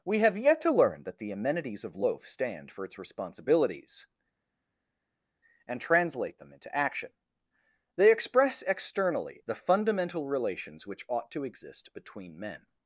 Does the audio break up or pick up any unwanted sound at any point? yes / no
no